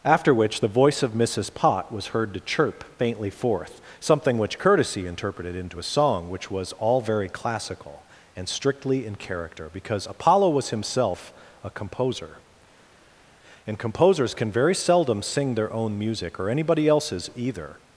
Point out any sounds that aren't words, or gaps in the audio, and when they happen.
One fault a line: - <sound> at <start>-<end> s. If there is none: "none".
none